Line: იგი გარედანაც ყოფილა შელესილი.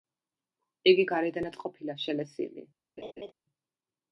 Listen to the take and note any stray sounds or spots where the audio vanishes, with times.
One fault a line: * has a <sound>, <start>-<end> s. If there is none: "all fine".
* has a laugh, 3.0-3.3 s